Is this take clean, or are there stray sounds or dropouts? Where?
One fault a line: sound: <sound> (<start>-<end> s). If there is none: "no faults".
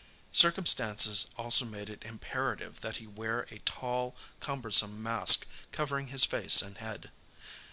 no faults